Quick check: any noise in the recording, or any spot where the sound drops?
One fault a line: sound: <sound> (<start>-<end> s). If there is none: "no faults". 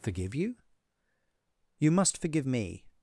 no faults